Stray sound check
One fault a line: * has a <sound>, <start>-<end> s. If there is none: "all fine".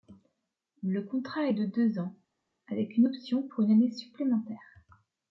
all fine